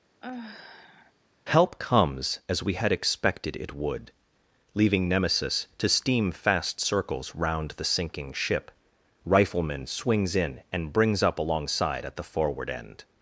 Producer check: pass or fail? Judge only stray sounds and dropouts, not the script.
fail